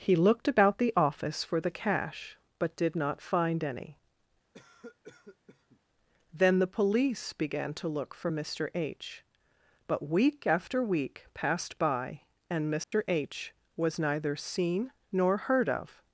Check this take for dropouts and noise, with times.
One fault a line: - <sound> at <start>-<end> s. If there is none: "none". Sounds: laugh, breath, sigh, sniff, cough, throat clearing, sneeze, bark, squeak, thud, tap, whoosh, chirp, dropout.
- cough at 4.5-5.8 s
- dropout at 12.8-12.9 s